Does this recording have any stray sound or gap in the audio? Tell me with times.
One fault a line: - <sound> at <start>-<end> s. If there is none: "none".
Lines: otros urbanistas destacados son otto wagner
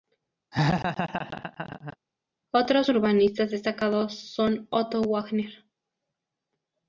- laugh at 0.5-2.0 s